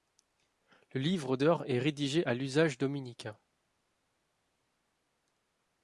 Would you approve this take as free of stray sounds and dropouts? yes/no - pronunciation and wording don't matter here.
yes